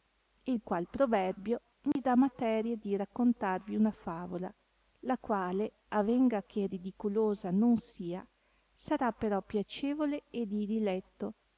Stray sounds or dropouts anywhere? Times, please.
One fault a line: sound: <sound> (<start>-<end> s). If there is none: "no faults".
sound: dropout (1.9-2.0 s)